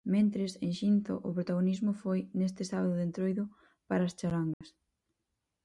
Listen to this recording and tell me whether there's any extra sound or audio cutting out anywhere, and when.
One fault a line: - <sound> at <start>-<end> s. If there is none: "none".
- dropout at 4.5-4.6 s